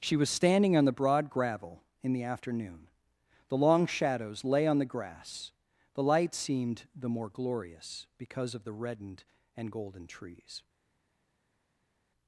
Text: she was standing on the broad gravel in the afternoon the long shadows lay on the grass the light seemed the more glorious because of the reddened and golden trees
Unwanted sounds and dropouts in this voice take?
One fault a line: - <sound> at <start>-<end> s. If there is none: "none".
none